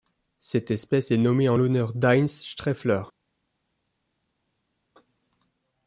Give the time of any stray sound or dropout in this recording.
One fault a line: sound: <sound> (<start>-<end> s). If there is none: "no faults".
no faults